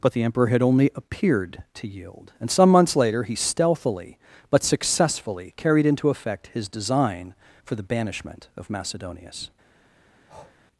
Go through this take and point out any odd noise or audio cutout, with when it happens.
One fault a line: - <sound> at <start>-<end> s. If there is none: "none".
- breath at 10.3-10.6 s